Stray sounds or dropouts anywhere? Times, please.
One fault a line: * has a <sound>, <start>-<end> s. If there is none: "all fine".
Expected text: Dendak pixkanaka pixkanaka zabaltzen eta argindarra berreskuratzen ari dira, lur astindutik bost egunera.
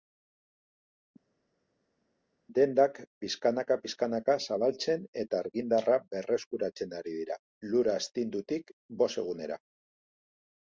all fine